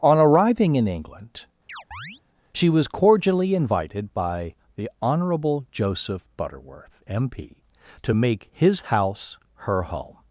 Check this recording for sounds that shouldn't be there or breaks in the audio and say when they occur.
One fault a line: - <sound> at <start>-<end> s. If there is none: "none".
- chirp at 1.7-2.2 s